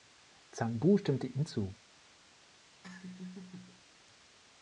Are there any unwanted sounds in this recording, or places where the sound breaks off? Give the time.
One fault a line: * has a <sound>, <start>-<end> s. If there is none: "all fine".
* has a laugh, 2.8-3.8 s